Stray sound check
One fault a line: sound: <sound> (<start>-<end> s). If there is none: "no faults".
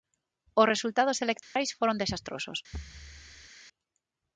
sound: dropout (1.4-1.6 s)
sound: thud (2.7-3.5 s)